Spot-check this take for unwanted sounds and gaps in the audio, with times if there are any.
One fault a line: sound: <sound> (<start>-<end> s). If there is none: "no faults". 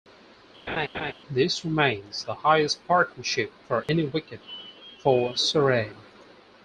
sound: laugh (0.7-1.1 s)
sound: dropout (3.8-3.9 s)